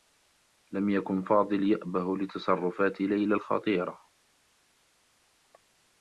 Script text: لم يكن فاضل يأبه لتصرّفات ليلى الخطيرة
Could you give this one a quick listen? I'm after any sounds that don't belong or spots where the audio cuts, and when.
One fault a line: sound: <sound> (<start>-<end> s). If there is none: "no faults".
no faults